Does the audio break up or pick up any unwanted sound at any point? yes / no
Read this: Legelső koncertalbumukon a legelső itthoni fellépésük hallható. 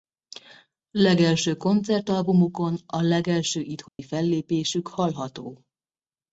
yes